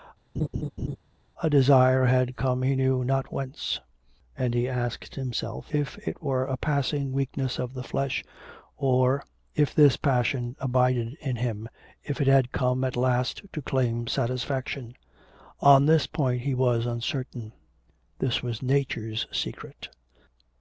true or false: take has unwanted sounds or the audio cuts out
true